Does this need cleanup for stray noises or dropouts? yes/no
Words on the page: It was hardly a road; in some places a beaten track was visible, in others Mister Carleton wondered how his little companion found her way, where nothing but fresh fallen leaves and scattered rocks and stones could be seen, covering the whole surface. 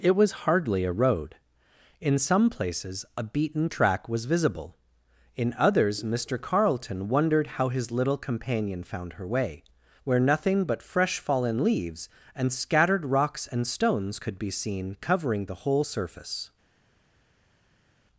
no